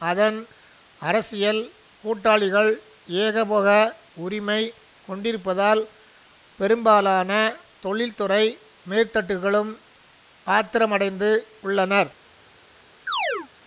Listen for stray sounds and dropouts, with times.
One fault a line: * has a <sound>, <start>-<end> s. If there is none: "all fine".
* has a chirp, 13.1-13.5 s